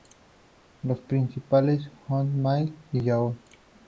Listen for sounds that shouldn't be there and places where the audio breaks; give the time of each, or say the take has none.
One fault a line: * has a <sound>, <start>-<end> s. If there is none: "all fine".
all fine